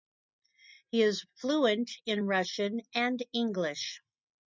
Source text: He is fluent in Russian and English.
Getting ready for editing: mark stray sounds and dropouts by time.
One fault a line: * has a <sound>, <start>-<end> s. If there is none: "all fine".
all fine